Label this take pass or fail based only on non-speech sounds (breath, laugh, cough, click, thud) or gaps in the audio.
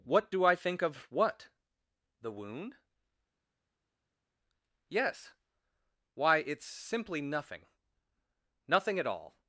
pass